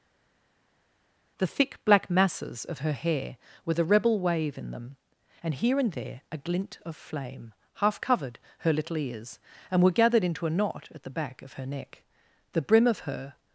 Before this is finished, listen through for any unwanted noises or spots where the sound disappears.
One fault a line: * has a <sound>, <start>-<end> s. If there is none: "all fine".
all fine